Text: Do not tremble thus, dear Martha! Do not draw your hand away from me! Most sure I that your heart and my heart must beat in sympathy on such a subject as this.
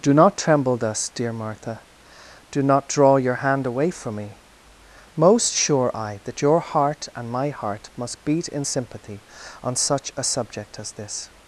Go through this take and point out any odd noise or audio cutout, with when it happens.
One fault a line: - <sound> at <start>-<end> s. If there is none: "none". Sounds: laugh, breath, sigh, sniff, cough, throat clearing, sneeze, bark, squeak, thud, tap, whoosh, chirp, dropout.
none